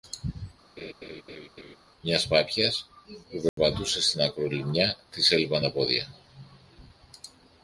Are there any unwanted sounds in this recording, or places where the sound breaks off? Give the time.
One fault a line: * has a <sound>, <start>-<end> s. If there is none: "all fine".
* has a laugh, 0.8-1.8 s
* has a dropout, 3.5-3.6 s